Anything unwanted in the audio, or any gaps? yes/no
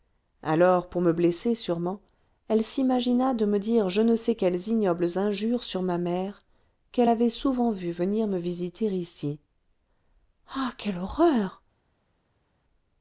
no